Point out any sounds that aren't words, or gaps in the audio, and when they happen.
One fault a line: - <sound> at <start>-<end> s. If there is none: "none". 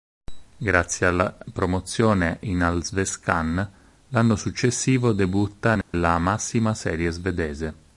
- dropout at 5.8-5.9 s